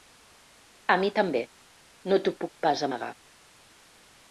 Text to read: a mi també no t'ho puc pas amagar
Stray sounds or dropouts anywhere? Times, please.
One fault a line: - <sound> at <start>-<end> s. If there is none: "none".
none